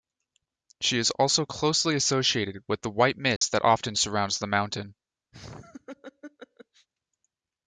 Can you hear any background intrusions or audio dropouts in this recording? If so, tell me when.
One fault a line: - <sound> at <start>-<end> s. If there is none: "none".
- dropout at 3.4-3.4 s
- laugh at 5.3-6.9 s